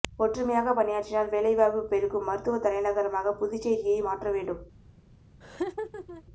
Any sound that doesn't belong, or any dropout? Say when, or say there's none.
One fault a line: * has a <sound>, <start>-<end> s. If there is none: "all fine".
* has a laugh, 5.4-6.2 s